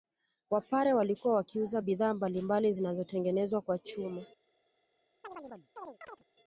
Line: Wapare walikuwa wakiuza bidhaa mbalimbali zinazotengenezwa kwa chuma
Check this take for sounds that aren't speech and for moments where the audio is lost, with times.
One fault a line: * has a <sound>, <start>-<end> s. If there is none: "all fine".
* has a chirp, 5.2-6.2 s